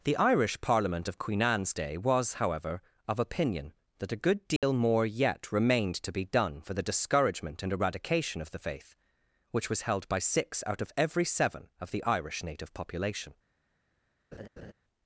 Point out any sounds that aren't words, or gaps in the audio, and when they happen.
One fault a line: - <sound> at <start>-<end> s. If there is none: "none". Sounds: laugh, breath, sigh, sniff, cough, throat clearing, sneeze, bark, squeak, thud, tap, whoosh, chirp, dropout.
- dropout at 4.6-4.6 s
- laugh at 14.3-14.7 s